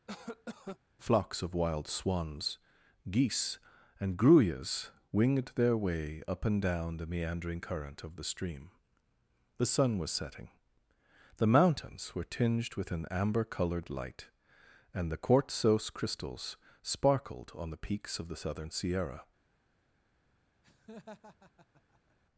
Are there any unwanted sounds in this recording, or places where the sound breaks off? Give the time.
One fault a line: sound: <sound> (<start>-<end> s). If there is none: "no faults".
sound: cough (0.1-0.8 s)
sound: laugh (20.6-22.2 s)